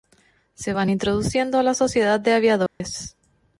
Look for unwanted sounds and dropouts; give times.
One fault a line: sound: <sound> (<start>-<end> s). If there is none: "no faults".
sound: dropout (2.7-2.8 s)